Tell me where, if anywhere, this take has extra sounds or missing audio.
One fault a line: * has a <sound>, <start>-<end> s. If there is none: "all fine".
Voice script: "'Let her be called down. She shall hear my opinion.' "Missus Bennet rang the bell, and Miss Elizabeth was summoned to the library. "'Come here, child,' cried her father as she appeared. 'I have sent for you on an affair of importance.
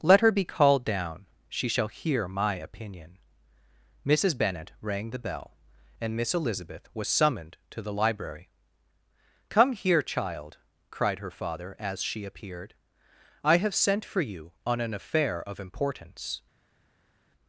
all fine